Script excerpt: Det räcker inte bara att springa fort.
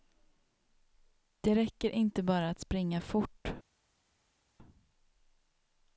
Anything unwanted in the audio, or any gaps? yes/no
no